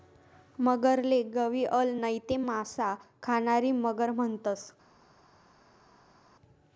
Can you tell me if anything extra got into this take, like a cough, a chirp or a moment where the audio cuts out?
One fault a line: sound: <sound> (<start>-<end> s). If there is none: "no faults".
no faults